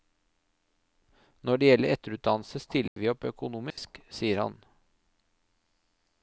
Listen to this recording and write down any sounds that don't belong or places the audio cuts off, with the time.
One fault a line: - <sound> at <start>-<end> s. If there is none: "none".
- dropout at 2.9-3.0 s
- dropout at 3.7-3.8 s